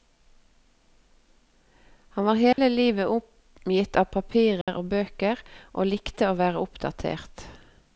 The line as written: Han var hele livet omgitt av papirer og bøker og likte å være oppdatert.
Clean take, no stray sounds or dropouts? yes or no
no